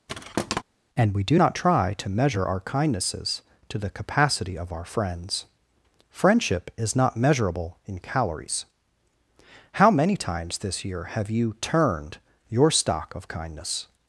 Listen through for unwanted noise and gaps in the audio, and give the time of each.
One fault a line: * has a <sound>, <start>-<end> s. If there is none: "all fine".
* has a thud, 0.1-0.6 s